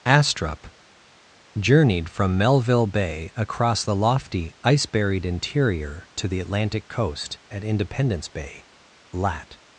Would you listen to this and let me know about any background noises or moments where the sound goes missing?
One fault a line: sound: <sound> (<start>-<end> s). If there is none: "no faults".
no faults